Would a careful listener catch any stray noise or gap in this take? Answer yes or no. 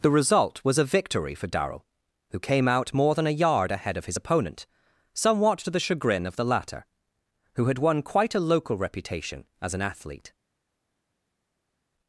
no